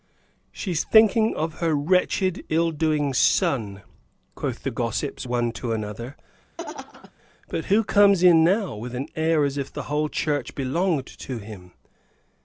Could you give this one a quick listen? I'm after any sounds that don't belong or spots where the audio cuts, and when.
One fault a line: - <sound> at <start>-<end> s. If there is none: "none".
- laugh at 6.6-7.1 s